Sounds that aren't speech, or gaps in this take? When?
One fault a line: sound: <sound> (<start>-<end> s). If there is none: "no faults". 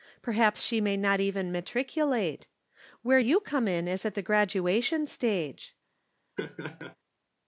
sound: laugh (6.4-7.0 s)